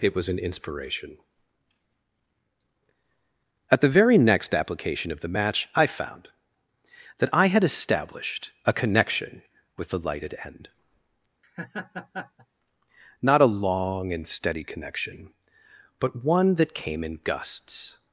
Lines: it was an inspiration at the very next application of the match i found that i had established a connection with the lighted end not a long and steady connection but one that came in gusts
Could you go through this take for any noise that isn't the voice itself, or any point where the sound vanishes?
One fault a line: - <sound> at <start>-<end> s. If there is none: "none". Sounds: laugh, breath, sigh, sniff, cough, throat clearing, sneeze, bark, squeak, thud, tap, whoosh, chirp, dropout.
- laugh at 11.4-12.5 s